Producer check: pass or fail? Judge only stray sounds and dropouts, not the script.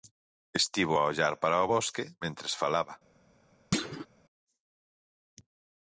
fail